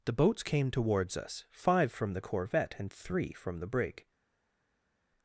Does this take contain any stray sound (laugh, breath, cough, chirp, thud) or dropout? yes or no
no